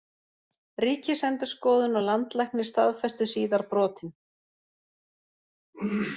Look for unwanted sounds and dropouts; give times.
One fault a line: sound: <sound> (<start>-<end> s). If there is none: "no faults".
no faults